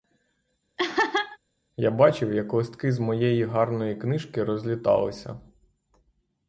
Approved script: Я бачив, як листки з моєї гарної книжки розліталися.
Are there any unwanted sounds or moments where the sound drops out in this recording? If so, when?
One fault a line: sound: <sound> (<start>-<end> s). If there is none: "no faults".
sound: laugh (0.8-1.4 s)